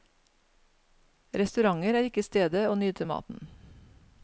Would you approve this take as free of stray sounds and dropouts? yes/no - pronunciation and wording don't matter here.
yes